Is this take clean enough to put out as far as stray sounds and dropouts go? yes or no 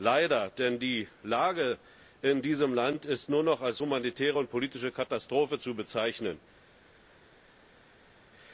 yes